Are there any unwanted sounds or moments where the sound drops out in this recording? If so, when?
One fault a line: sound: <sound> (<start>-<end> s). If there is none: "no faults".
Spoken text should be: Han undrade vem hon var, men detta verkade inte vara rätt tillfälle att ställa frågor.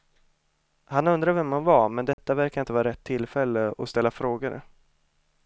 sound: dropout (2.1-2.2 s)